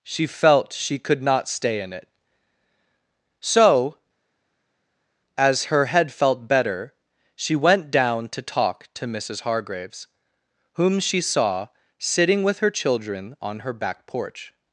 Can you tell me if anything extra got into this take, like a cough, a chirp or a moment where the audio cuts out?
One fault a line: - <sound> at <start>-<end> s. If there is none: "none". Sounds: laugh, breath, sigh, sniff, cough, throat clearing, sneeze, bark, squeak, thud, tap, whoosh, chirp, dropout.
none